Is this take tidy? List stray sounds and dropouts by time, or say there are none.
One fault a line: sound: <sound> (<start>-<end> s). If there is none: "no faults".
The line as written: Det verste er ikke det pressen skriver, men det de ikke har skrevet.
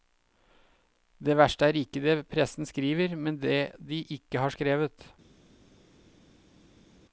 no faults